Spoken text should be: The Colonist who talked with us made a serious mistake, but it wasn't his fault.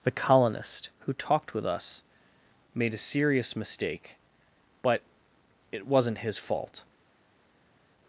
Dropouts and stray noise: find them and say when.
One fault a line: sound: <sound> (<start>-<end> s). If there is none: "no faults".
no faults